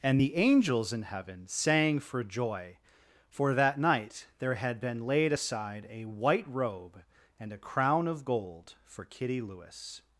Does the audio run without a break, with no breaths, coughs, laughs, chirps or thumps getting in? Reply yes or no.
yes